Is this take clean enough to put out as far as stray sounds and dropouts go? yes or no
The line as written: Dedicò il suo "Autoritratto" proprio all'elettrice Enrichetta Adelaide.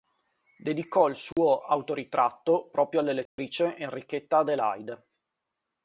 no